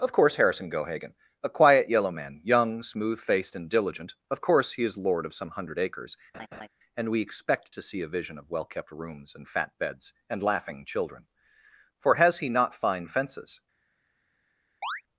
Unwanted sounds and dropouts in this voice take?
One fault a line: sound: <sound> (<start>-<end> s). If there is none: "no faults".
sound: laugh (6.3-6.7 s)
sound: chirp (14.8-15.0 s)